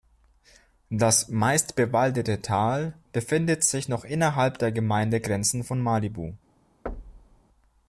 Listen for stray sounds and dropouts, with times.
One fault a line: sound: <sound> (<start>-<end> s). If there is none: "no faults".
sound: thud (6.9-7.4 s)